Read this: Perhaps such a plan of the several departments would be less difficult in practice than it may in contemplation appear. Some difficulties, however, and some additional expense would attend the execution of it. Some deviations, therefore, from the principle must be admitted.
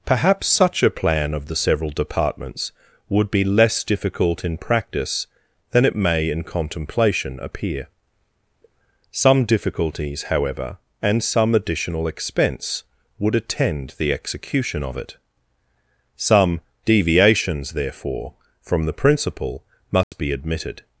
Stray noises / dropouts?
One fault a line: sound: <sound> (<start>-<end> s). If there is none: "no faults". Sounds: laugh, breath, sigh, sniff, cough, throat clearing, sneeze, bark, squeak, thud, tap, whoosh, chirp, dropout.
sound: dropout (20.0-20.1 s)